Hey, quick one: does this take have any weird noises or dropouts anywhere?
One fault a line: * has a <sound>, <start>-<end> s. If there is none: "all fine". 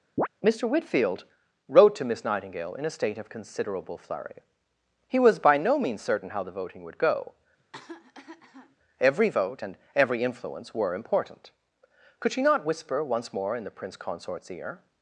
* has a chirp, 0.2-0.3 s
* has a cough, 7.6-8.8 s